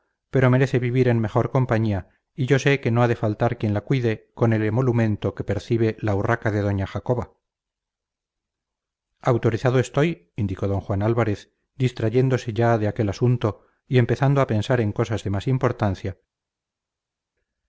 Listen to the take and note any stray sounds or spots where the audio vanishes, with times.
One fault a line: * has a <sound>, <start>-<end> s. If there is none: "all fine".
all fine